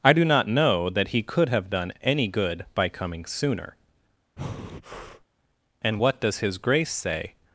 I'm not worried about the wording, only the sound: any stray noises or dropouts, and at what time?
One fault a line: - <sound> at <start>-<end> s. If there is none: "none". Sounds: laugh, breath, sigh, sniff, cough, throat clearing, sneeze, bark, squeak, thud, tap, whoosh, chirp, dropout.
- breath at 4.4-5.3 s